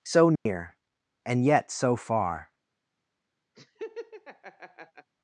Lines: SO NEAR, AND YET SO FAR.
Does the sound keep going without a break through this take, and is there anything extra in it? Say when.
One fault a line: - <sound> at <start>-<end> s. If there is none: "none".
- dropout at 0.4-0.5 s
- laugh at 3.5-5.1 s